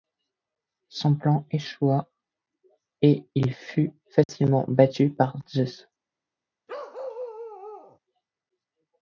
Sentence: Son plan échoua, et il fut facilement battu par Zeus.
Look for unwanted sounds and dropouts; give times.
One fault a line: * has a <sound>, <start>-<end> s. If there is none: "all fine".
* has a dropout, 4.2-4.3 s
* has a bark, 6.7-8.0 s